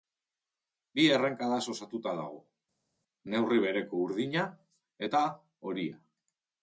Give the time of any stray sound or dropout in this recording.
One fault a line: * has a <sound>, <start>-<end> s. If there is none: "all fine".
all fine